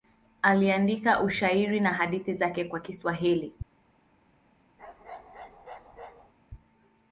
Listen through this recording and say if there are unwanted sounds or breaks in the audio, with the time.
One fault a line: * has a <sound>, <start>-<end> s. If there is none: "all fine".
* has a bark, 4.8-6.3 s